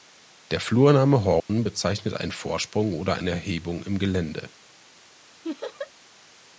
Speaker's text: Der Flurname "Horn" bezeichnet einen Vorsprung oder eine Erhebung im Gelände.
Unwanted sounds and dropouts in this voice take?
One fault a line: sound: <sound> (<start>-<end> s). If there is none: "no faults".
sound: dropout (1.4-1.5 s)
sound: laugh (5.4-5.9 s)